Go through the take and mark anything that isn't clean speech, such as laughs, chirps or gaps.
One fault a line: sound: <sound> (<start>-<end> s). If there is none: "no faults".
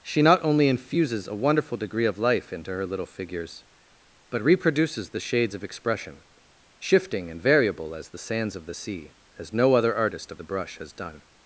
no faults